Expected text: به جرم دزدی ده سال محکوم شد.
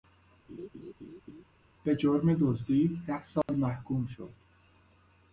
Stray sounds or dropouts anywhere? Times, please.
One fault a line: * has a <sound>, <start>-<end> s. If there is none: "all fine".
* has a laugh, 0.5-1.4 s
* has a dropout, 3.4-3.5 s